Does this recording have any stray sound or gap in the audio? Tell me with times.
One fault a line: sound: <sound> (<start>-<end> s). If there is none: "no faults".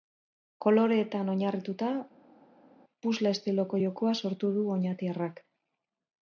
no faults